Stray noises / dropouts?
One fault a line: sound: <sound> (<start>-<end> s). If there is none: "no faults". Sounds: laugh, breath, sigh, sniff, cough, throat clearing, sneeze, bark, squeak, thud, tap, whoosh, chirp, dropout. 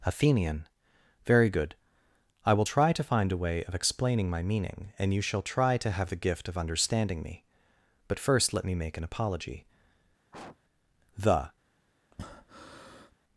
sound: sniff (10.3-10.6 s)
sound: breath (12.1-13.1 s)